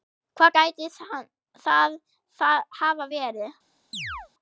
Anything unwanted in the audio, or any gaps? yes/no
yes